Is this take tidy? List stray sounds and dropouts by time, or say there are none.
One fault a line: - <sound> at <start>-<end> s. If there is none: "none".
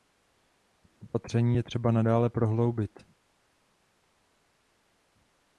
none